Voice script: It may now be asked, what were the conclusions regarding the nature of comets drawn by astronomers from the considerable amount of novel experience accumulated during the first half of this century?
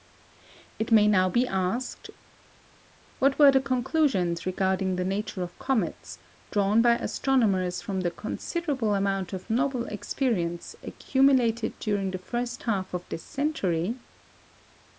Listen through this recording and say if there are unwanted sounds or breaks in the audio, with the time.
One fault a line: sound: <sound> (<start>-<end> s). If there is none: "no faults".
no faults